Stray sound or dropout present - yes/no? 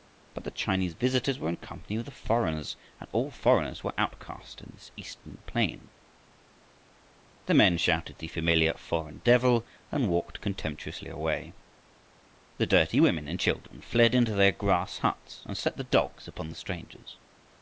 no